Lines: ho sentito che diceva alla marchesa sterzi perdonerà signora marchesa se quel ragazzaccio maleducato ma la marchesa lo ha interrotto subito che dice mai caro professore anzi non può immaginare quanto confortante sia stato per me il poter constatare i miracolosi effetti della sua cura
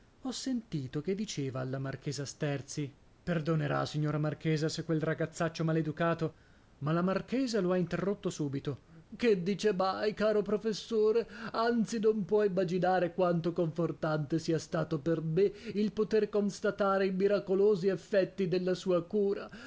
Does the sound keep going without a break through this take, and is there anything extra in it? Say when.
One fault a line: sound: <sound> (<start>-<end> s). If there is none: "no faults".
no faults